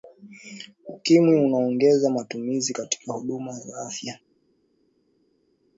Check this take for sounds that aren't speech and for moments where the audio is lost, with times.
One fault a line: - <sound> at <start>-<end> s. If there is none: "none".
none